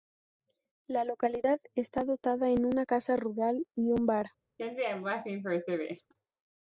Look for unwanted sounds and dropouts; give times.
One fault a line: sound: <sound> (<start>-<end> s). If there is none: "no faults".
sound: laugh (4.6-6.1 s)